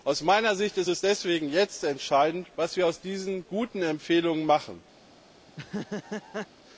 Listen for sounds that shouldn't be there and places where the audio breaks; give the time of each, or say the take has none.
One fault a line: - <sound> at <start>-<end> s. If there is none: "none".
- laugh at 5.5-6.5 s